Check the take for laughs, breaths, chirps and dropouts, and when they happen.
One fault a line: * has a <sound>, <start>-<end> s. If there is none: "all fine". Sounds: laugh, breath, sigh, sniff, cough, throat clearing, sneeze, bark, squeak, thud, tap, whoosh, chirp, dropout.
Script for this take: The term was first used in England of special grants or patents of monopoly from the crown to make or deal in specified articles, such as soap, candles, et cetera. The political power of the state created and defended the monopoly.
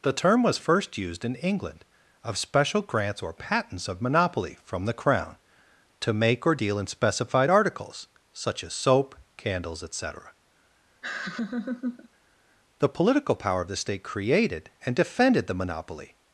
* has a laugh, 11.0-12.1 s